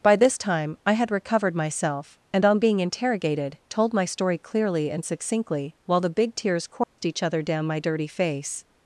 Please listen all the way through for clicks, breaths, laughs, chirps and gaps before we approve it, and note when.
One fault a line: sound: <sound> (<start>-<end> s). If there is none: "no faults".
sound: dropout (6.8-7.0 s)